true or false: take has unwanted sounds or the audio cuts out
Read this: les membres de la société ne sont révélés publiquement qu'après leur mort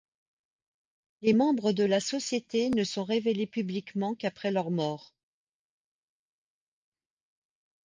false